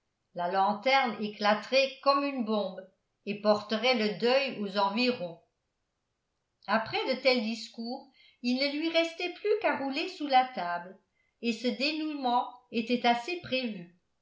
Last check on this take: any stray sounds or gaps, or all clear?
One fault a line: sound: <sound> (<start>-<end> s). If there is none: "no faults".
no faults